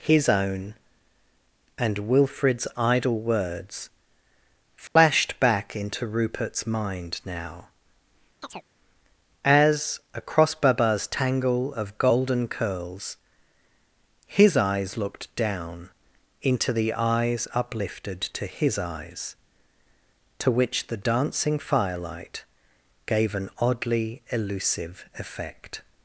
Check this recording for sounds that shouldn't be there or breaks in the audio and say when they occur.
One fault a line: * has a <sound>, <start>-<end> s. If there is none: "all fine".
* has a dropout, 4.9-5.0 s
* has a chirp, 8.4-8.7 s